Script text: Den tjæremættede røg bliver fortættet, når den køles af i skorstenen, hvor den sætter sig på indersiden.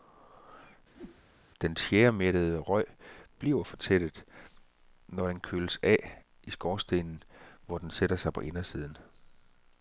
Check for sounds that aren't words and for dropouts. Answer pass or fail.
fail